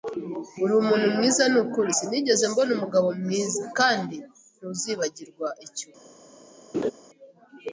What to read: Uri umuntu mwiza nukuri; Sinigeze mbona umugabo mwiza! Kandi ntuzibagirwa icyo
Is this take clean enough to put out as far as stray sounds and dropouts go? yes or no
no